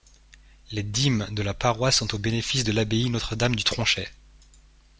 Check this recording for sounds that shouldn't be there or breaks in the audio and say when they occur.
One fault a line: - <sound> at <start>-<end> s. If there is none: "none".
none